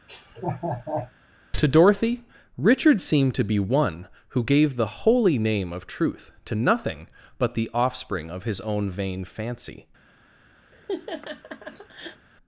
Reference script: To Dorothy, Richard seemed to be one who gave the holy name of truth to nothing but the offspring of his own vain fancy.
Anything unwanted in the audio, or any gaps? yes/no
yes